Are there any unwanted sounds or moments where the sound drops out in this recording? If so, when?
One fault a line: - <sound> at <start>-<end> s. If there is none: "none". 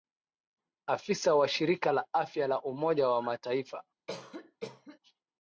- cough at 4.1-5.0 s